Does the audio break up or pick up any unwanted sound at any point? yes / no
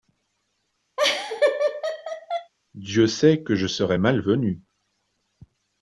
yes